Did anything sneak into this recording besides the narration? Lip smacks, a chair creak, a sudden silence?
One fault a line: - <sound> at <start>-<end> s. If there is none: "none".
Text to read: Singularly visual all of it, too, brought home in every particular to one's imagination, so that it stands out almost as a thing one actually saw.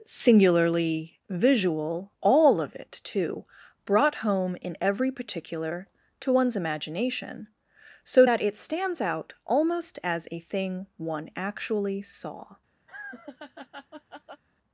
- laugh at 12.9-14.4 s